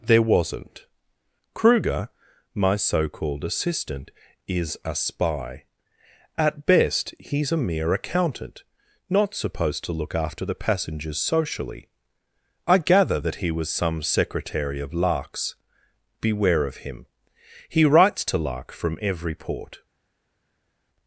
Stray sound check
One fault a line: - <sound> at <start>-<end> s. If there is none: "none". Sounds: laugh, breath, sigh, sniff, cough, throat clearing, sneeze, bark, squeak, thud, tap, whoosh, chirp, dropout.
none